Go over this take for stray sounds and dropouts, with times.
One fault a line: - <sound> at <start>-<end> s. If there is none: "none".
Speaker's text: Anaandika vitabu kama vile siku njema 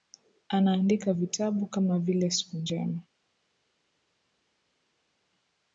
none